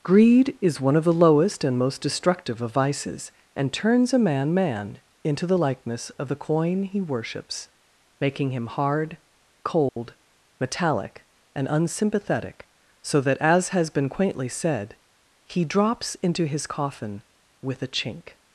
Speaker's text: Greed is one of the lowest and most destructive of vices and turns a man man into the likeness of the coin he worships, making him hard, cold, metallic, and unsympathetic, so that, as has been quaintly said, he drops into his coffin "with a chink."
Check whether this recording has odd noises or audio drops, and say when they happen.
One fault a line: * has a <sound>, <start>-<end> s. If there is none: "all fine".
* has a dropout, 9.9-10.0 s